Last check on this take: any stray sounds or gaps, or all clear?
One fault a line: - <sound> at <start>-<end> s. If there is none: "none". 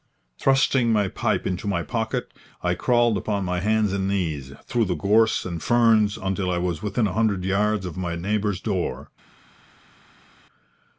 none